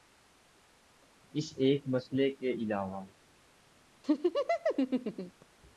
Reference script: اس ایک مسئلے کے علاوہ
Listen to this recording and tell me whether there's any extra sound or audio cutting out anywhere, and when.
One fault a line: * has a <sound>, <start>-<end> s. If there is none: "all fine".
* has a laugh, 4.0-5.5 s